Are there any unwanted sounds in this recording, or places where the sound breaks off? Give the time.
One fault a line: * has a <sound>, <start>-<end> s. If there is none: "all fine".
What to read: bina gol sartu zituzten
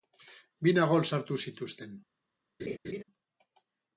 * has a laugh, 2.6-3.0 s